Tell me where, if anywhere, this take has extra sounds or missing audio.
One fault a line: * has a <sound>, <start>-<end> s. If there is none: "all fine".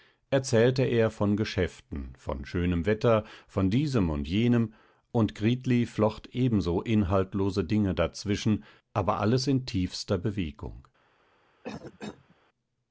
* has a cough, 11.6-12.4 s